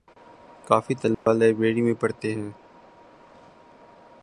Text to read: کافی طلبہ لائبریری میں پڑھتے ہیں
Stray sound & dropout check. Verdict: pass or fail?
fail